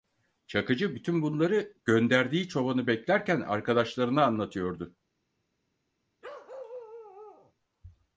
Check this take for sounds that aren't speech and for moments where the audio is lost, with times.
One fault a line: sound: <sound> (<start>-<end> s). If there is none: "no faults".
sound: bark (6.2-7.5 s)